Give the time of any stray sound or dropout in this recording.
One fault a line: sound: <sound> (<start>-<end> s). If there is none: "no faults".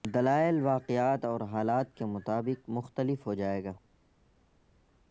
no faults